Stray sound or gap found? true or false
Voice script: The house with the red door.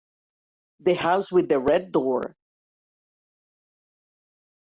false